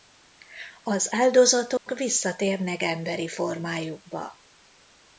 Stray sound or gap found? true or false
true